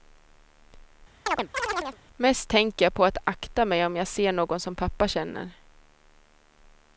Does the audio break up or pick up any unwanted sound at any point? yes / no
yes